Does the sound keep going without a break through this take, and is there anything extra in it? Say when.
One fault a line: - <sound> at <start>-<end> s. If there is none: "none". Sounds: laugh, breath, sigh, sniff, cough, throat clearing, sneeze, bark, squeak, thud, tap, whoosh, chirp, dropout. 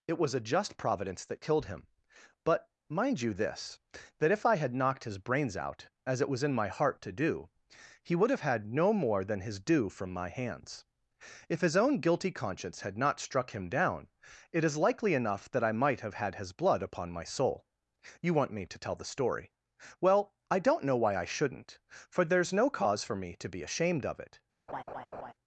- laugh at 24.7-25.3 s